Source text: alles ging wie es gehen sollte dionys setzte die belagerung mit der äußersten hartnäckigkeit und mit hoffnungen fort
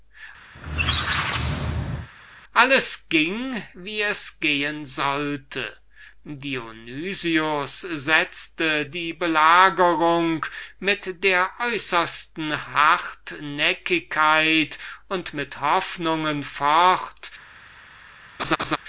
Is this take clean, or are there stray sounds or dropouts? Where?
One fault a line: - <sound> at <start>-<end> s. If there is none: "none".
- squeak at 0.5-2.1 s
- laugh at 18.4-18.8 s